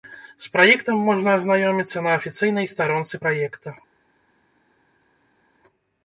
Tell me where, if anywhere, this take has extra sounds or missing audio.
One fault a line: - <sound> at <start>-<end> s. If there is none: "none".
none